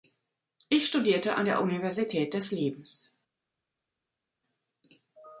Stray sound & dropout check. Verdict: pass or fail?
pass